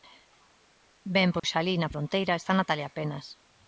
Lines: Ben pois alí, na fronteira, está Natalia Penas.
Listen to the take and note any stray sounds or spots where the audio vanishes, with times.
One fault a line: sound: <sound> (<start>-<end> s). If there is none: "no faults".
sound: dropout (1.4-1.4 s)